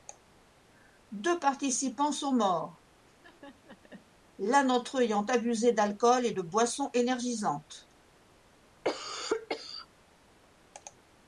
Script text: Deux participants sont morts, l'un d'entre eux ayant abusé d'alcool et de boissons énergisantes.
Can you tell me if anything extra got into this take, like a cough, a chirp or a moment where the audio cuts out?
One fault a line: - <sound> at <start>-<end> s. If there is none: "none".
- laugh at 3.1-4.1 s
- cough at 8.8-9.9 s